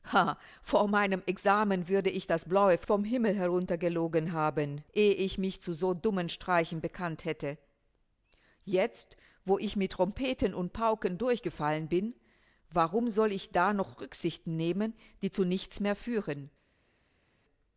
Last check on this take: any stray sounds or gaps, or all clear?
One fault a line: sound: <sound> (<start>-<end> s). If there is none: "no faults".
no faults